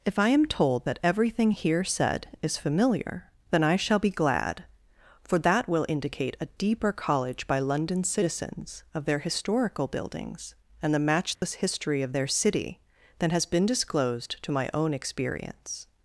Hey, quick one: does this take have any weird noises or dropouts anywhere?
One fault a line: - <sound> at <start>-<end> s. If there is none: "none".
- dropout at 11.4-11.4 s